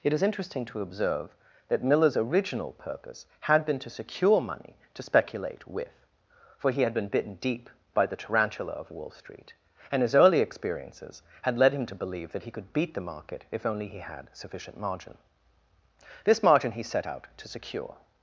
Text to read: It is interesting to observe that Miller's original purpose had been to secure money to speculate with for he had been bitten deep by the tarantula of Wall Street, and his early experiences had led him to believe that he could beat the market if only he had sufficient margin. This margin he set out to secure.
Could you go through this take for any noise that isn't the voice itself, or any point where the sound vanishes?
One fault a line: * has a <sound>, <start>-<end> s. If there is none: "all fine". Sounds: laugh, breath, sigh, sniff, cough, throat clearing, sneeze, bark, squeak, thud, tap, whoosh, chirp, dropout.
all fine